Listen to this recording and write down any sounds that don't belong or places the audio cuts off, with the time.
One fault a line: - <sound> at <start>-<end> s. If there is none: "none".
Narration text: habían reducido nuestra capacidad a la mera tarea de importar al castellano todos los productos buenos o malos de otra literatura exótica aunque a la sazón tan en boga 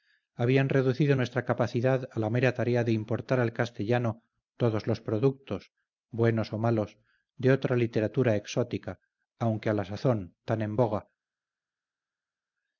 none